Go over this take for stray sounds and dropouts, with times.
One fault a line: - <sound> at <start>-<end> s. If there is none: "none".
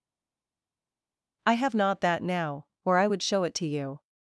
none